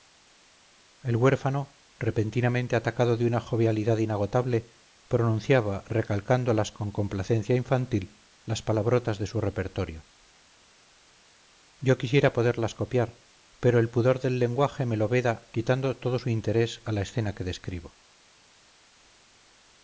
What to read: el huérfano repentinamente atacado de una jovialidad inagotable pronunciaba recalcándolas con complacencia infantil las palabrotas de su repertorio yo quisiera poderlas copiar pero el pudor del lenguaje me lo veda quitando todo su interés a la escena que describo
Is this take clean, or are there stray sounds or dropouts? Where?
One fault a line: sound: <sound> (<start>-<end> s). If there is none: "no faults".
no faults